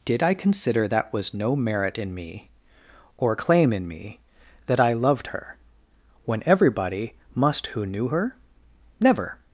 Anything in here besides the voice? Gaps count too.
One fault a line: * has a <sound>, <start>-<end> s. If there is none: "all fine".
all fine